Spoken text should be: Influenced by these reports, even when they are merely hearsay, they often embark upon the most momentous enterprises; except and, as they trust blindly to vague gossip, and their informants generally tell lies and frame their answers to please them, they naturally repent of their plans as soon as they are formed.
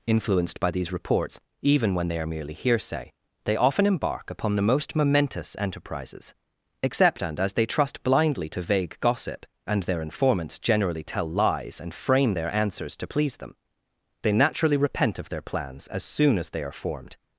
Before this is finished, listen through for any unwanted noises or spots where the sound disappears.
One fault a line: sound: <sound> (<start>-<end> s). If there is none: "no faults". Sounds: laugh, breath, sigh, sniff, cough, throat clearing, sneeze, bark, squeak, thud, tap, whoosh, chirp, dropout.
no faults